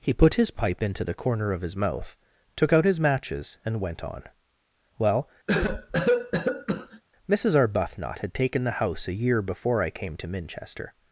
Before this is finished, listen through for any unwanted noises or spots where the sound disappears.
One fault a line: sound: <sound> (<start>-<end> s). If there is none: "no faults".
sound: cough (5.5-7.0 s)